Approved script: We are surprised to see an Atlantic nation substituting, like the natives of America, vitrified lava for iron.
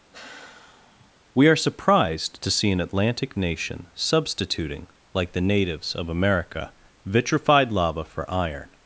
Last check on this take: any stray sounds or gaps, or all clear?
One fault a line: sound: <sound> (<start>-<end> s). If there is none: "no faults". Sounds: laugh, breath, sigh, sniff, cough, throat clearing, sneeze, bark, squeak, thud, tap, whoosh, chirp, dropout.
sound: sigh (0.1-1.1 s)